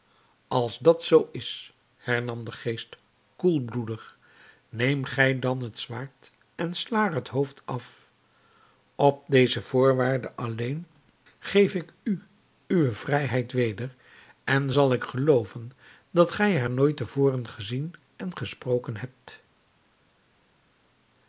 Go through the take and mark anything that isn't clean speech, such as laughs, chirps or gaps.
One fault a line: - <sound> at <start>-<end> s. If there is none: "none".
none